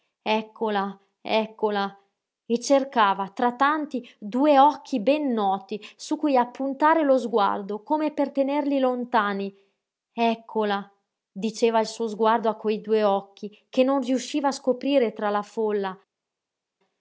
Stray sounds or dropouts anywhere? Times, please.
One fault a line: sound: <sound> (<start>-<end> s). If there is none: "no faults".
no faults